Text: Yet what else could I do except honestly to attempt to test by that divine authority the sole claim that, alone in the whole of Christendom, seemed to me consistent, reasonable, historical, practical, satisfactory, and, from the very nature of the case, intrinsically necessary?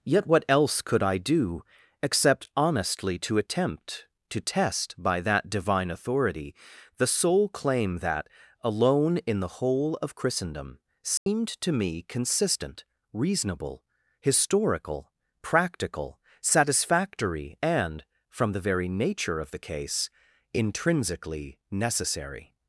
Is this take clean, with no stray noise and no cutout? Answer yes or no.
no